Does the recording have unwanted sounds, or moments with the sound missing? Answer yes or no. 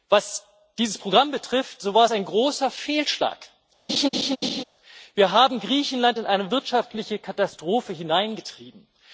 yes